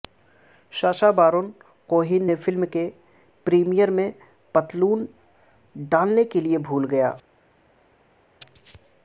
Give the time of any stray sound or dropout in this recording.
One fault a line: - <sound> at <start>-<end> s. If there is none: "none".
none